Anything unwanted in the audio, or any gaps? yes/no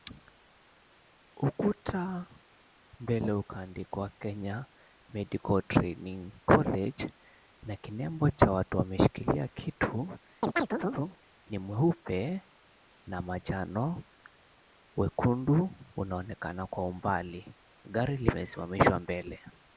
yes